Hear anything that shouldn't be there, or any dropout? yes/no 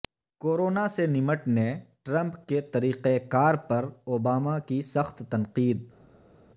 no